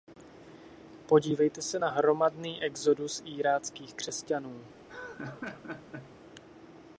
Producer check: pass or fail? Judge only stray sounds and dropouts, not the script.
fail